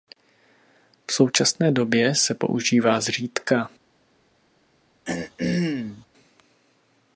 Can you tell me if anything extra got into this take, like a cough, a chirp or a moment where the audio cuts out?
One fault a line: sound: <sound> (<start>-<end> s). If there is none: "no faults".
sound: throat clearing (5.1-6.1 s)